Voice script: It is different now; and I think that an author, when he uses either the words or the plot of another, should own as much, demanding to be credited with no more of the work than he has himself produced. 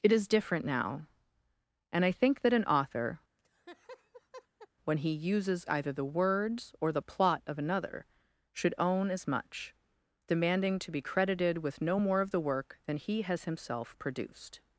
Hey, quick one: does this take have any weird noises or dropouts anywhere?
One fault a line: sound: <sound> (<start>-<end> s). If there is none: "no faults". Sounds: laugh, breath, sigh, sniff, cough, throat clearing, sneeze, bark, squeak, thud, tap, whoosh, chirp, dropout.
sound: laugh (3.4-4.7 s)